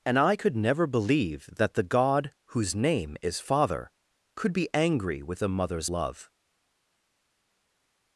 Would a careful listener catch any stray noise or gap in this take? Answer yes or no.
no